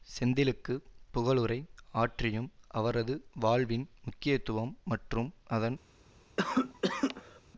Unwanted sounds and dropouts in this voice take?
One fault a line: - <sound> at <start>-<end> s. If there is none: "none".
- cough at 6.4-7.4 s